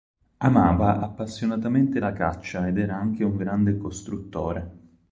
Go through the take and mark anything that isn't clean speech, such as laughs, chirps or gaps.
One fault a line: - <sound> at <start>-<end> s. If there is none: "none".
none